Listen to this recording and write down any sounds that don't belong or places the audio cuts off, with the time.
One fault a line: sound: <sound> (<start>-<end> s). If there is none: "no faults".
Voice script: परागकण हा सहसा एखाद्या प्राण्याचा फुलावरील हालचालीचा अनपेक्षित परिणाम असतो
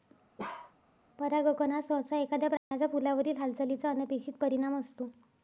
sound: bark (0.4-0.7 s)
sound: dropout (2.6-2.7 s)